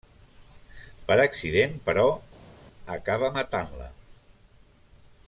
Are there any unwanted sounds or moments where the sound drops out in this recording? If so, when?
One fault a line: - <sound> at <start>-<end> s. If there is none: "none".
none